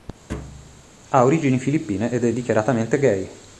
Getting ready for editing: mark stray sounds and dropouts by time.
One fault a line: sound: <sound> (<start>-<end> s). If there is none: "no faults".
sound: thud (0.3-0.8 s)